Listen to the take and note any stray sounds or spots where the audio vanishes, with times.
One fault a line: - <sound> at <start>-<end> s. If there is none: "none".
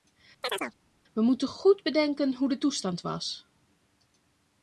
- chirp at 0.4-0.7 s